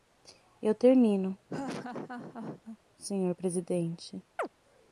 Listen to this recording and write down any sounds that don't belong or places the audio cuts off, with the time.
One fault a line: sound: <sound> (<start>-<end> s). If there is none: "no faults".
sound: laugh (1.5-2.8 s)
sound: chirp (4.4-4.5 s)